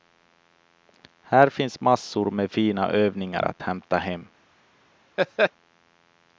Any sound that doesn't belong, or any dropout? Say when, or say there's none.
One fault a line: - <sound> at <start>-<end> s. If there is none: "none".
- laugh at 5.2-5.5 s